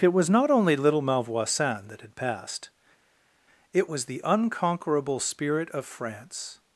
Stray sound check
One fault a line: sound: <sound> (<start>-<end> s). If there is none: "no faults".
no faults